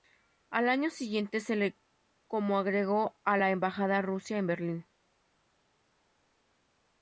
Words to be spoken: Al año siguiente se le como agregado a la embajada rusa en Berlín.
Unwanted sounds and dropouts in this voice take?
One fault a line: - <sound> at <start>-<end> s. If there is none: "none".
none